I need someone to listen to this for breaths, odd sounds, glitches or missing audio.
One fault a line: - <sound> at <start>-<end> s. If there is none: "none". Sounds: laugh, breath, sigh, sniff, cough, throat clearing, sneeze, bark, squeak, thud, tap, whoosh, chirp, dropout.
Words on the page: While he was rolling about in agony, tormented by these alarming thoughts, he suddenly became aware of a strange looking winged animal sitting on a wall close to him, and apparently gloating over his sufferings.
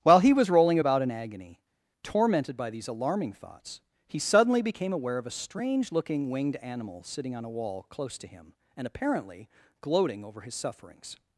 none